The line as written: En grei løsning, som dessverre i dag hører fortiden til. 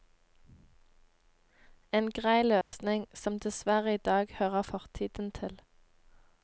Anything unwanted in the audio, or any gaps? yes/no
yes